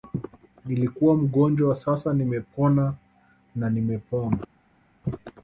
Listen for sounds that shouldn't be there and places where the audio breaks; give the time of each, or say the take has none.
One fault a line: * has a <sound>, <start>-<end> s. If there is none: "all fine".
all fine